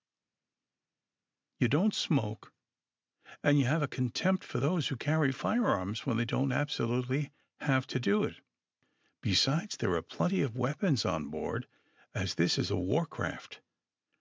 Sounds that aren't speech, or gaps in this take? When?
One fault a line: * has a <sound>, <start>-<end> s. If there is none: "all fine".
all fine